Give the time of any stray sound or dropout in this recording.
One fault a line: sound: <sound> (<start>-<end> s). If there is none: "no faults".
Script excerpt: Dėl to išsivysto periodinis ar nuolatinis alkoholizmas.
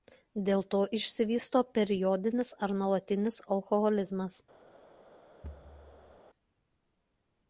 sound: thud (5.4-6.2 s)